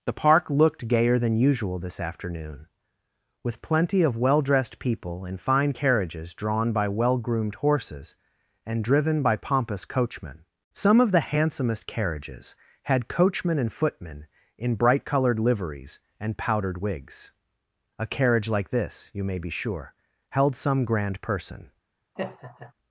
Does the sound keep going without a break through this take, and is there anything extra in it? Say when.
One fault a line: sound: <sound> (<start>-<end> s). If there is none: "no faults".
sound: laugh (22.2-22.7 s)